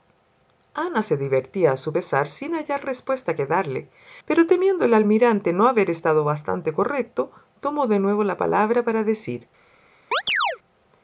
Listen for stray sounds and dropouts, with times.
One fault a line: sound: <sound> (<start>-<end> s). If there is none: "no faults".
sound: chirp (10.1-10.6 s)